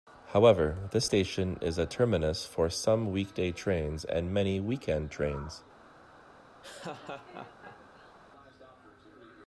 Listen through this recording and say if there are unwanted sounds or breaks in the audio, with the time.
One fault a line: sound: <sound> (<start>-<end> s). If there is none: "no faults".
sound: laugh (6.6-8.2 s)